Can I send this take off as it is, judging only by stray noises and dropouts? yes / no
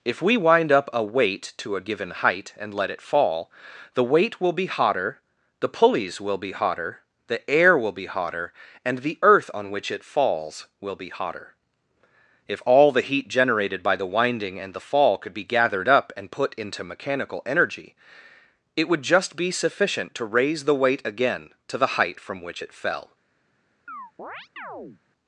no